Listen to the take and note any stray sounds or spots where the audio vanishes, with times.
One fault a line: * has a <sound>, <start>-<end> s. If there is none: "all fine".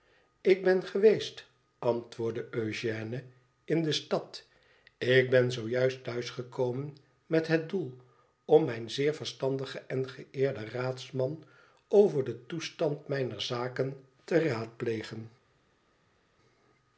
all fine